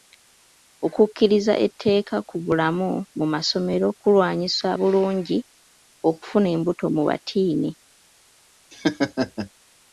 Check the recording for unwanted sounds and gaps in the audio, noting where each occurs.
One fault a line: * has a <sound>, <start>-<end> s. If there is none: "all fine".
* has a laugh, 8.7-9.5 s